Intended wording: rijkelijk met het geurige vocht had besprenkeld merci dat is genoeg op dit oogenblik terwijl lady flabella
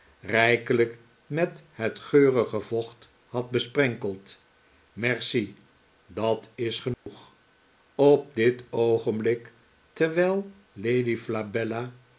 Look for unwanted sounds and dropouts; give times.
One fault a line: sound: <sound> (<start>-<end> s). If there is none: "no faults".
sound: dropout (6.9-7.1 s)